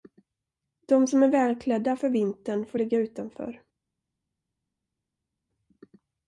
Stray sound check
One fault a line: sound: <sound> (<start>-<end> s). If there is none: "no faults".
no faults